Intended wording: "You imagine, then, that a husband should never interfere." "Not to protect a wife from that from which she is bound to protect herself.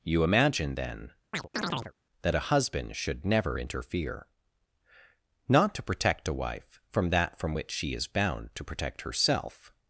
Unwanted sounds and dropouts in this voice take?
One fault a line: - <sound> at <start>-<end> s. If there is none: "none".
- chirp at 1.3-1.9 s